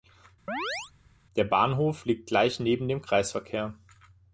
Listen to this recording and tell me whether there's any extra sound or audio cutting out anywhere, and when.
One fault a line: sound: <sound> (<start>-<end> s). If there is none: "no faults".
sound: chirp (0.5-0.9 s)